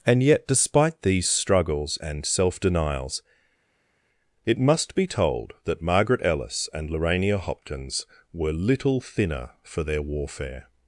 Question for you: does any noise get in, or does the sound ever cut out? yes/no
no